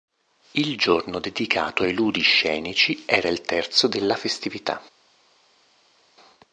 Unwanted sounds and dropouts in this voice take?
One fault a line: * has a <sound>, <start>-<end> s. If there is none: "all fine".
all fine